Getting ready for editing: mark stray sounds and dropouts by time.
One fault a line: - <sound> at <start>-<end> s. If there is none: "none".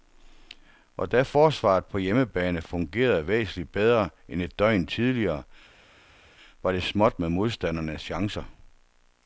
none